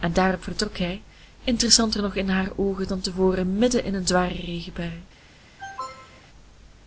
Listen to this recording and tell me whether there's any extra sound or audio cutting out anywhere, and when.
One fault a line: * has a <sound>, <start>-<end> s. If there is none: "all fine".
* has a cough, 5.6-6.3 s